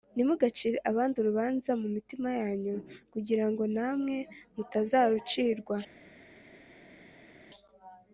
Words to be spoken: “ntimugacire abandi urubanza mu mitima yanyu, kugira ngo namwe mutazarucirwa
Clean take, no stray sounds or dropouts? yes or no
yes